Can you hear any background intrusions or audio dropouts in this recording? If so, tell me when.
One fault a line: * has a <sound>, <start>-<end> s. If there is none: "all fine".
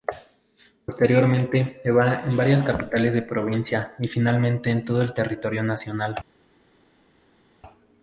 all fine